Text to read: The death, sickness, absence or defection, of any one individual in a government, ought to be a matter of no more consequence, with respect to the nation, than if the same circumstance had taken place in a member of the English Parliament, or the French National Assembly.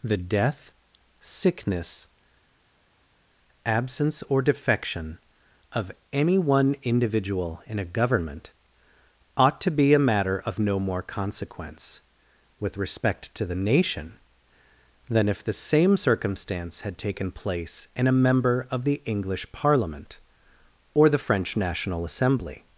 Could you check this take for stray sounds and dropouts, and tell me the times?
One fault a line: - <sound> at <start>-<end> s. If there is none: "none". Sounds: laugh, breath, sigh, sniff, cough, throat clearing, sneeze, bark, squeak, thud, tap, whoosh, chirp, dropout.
none